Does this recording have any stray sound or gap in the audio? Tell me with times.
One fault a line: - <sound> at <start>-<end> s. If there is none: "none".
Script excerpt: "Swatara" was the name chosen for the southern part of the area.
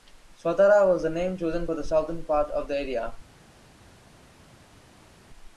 none